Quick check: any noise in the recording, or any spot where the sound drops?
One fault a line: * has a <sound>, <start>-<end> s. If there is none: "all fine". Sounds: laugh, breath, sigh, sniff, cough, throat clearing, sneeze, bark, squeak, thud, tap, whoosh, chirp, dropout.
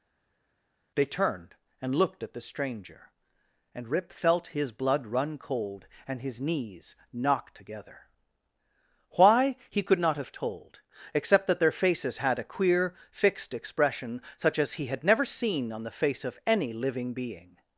all fine